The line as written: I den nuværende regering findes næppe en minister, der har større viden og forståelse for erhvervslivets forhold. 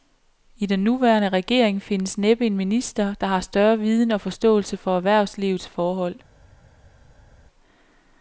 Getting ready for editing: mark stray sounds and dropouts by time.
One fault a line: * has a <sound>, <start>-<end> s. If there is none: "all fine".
all fine